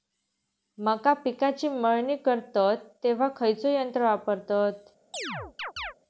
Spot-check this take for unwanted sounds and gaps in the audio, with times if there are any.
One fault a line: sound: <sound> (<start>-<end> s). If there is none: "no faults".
sound: chirp (5.1-5.9 s)